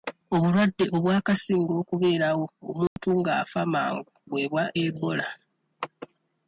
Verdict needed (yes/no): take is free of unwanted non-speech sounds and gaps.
no